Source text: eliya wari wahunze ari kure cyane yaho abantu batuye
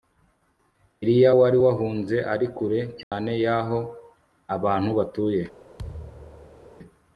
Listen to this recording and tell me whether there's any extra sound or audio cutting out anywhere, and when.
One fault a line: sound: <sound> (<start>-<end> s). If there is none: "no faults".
sound: dropout (3.0-3.1 s)
sound: thud (5.8-6.7 s)